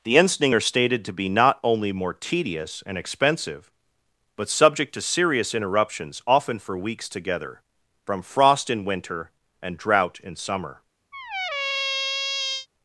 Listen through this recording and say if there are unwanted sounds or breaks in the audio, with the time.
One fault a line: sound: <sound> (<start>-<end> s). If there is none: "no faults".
sound: squeak (11.1-12.7 s)